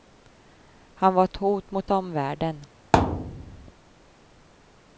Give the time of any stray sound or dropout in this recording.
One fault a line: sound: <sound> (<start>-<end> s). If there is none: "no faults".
sound: thud (2.9-3.7 s)